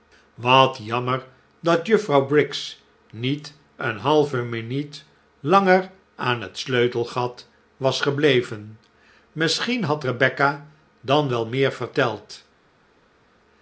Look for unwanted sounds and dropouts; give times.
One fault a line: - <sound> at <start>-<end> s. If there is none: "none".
none